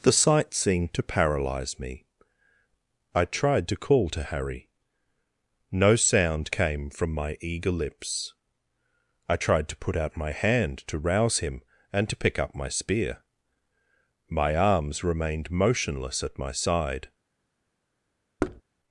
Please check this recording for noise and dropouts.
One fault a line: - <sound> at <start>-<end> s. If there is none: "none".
- thud at 18.4-18.6 s